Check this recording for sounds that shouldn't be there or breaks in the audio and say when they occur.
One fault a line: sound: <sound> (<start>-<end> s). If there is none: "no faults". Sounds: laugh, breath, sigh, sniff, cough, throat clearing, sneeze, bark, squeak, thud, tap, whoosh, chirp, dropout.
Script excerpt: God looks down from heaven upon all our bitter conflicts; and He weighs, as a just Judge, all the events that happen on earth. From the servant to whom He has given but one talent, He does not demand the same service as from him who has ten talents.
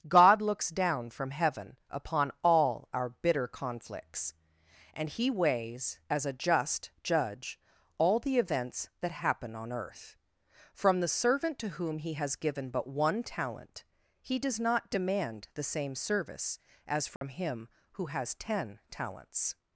sound: dropout (17.2-17.2 s)